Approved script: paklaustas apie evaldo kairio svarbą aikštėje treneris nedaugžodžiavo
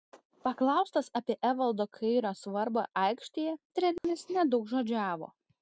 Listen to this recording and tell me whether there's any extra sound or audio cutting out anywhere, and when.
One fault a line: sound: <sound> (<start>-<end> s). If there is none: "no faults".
sound: dropout (4.0-4.0 s)